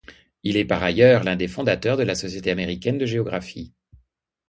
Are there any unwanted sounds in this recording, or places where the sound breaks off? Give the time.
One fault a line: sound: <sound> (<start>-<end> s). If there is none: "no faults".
no faults